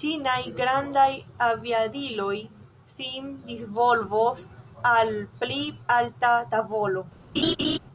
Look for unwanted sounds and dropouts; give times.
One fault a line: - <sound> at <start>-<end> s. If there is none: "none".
- laugh at 7.4-7.8 s